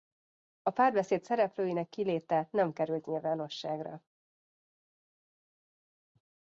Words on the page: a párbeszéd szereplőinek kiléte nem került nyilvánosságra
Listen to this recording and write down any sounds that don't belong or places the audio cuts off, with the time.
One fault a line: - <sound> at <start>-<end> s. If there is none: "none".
none